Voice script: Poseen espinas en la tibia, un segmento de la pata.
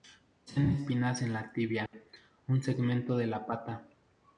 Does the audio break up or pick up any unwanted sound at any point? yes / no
yes